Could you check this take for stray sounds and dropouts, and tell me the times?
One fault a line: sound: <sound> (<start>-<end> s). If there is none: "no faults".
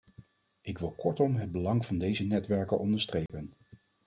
sound: dropout (3.3-3.3 s)